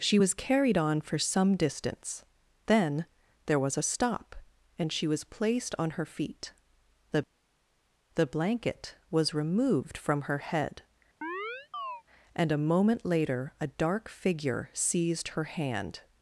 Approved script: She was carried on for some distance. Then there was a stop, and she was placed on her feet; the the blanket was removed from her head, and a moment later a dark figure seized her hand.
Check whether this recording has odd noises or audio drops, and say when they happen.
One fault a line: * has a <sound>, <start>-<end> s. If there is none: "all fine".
* has a chirp, 11.2-12.0 s